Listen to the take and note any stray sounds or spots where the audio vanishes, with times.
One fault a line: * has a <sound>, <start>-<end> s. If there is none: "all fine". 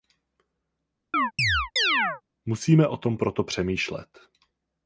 * has a chirp, 1.1-2.2 s